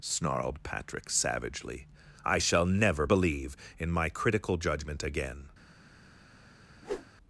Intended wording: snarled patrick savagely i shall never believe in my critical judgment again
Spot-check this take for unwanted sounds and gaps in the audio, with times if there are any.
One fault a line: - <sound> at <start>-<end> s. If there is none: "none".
- whoosh at 6.8-7.1 s